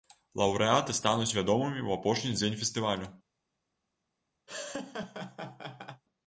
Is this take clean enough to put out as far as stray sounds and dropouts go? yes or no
no